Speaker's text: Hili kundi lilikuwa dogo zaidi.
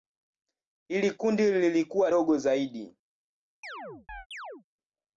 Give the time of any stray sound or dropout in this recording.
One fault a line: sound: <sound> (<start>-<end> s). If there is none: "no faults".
sound: chirp (3.6-4.6 s)